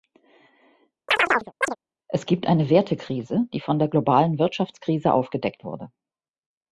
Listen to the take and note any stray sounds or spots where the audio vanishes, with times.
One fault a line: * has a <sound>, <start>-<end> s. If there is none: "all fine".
* has a chirp, 1.1-1.8 s